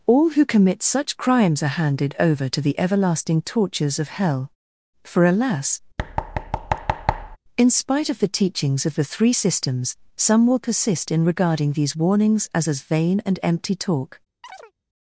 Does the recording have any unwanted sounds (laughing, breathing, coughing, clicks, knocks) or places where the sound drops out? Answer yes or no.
yes